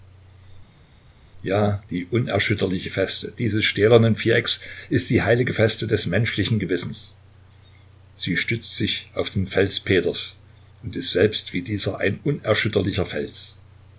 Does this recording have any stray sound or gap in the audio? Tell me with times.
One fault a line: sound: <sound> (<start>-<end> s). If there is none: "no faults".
no faults